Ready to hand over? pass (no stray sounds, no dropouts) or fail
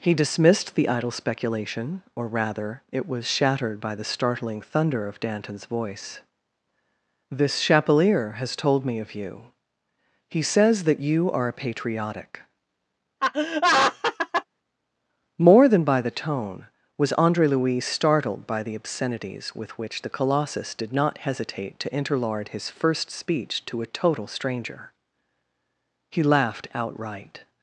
fail